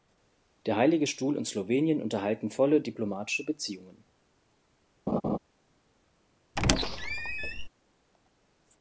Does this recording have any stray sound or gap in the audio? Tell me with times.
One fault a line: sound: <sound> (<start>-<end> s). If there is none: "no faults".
sound: laugh (5.1-5.4 s)
sound: squeak (6.6-7.7 s)